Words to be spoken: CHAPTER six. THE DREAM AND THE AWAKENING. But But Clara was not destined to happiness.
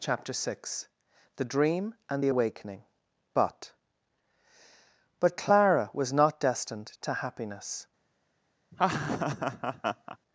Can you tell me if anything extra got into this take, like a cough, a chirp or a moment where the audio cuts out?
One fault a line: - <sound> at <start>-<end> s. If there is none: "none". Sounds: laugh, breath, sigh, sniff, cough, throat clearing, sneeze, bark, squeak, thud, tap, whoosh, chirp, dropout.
- laugh at 8.7-10.2 s